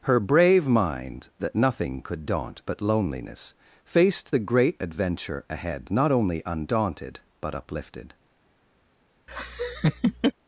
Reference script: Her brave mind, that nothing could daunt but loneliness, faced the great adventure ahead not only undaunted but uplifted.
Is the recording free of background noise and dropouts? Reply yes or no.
no